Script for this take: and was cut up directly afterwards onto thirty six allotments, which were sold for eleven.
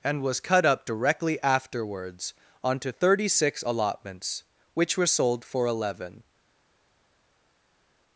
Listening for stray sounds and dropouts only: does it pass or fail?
pass